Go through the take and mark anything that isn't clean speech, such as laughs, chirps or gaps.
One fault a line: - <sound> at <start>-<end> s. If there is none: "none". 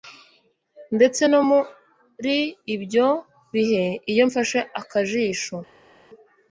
none